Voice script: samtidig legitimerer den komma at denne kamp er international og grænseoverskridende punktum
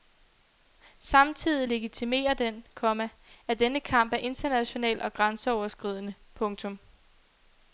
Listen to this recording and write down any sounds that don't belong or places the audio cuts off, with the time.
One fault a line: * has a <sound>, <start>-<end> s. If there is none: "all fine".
all fine